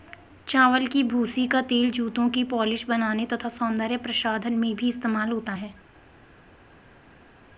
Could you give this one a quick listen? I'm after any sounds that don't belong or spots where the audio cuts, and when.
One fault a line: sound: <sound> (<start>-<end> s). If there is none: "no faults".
no faults